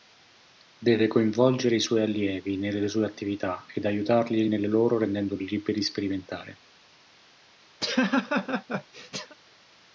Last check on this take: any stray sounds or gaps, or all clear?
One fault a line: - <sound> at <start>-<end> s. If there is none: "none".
- laugh at 7.8-9.4 s